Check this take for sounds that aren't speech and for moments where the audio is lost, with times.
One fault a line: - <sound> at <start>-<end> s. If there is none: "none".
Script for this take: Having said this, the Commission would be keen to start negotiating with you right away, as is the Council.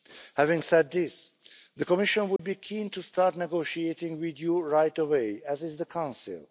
- dropout at 2.4-2.4 s